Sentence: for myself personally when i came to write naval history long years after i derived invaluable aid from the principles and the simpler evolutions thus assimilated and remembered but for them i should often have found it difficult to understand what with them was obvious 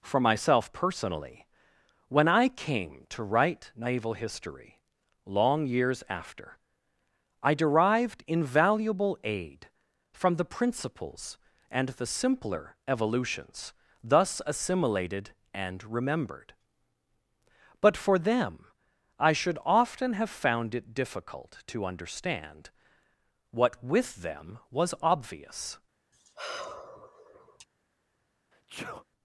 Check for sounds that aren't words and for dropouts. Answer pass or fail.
fail